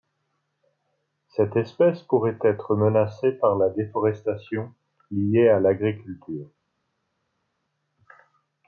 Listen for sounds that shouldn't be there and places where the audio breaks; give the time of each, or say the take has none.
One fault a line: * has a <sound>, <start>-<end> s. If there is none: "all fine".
all fine